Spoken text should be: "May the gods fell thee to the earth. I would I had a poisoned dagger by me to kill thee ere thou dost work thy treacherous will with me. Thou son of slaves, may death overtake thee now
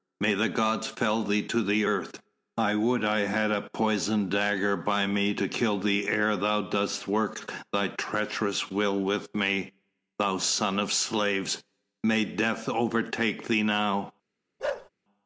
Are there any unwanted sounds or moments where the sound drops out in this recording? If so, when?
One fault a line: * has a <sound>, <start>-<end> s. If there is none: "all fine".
* has a bark, 14.6-14.9 s